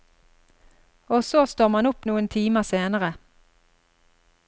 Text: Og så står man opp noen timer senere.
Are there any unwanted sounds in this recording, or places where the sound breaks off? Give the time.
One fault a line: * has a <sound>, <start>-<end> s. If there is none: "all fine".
all fine